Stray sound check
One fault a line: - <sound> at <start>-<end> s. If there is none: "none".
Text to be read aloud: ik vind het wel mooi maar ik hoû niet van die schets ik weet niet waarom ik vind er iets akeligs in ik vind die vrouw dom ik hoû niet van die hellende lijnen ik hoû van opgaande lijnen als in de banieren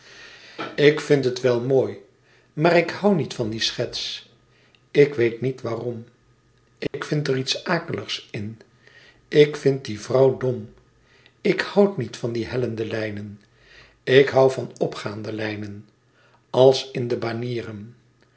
- dropout at 6.9-6.9 s